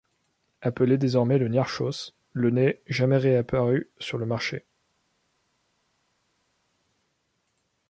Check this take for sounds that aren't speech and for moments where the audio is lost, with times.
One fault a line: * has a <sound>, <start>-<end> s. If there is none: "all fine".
all fine